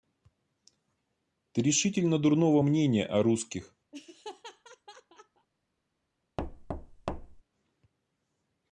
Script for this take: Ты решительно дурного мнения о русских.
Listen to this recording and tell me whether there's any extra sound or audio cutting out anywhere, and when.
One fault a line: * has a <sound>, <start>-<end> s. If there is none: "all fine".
* has a laugh, 3.9-5.5 s
* has a thud, 6.4-7.4 s